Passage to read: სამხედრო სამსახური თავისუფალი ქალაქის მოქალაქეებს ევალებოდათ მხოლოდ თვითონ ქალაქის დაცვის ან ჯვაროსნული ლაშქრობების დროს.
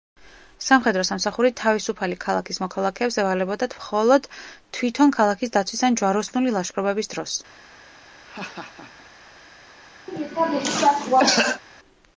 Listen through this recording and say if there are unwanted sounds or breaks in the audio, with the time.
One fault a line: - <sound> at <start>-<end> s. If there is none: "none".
- laugh at 8.2-9.1 s
- cough at 10.1-11.6 s